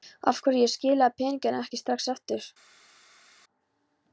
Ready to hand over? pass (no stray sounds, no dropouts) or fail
pass